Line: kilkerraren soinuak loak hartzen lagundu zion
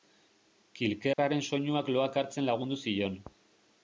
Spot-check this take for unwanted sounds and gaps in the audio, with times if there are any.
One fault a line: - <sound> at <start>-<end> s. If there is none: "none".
- dropout at 1.1-1.2 s